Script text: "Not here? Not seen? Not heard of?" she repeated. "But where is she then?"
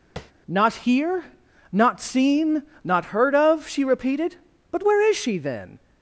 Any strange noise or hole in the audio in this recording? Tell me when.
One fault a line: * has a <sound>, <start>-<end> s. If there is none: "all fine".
* has a tap, 0.2-0.3 s